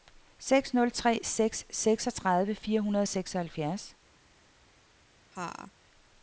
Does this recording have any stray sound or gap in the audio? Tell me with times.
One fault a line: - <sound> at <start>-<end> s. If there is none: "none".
- laugh at 5.3-5.7 s